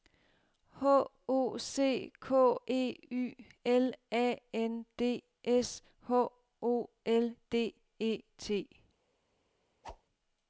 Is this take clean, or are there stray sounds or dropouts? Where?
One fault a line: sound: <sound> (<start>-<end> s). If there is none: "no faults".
sound: whoosh (9.8-10.0 s)